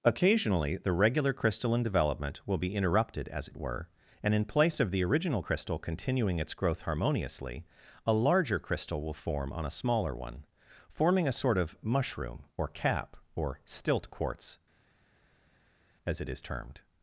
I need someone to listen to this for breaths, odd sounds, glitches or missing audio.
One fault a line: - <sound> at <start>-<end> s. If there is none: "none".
none